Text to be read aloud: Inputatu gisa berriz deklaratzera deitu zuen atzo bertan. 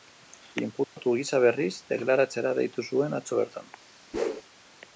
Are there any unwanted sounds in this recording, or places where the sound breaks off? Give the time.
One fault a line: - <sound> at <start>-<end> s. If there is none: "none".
- dropout at 0.8-1.0 s
- whoosh at 4.1-4.4 s